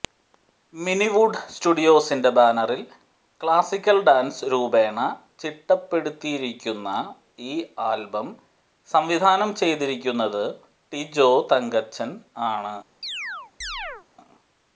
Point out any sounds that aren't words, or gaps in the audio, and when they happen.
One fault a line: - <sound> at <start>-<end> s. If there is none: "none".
- chirp at 13.0-14.1 s